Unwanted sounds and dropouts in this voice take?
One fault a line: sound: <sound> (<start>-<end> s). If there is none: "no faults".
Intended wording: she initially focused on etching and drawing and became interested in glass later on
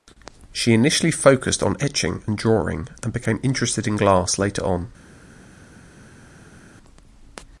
no faults